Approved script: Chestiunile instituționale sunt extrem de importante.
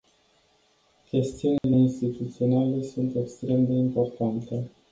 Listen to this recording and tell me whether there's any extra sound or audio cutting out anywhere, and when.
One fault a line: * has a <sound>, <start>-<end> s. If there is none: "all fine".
* has a dropout, 1.6-1.6 s